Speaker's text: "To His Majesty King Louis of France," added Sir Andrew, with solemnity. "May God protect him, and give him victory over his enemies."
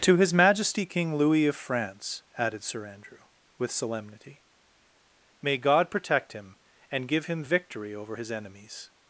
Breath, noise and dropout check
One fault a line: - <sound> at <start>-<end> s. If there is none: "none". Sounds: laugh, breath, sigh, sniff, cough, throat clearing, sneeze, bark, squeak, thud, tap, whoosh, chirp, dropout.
none